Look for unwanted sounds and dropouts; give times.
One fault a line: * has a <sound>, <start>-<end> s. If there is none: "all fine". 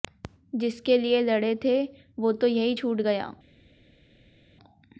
all fine